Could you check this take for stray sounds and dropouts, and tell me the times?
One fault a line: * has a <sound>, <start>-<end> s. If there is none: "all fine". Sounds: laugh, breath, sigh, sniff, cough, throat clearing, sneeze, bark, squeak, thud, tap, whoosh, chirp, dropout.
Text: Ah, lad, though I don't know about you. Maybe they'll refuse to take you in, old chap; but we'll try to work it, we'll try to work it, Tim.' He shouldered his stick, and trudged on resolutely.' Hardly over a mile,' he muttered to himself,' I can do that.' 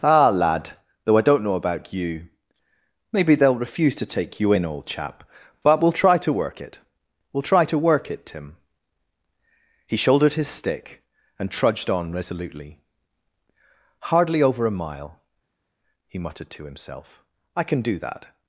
all fine